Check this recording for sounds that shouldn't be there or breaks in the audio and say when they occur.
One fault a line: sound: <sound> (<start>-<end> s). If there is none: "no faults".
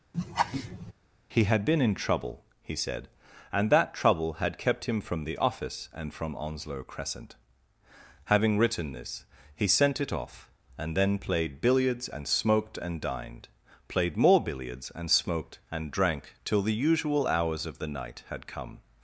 sound: laugh (0.1-0.9 s)